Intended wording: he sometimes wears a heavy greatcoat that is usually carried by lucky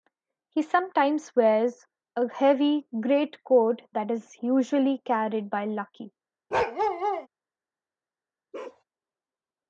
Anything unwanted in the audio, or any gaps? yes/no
yes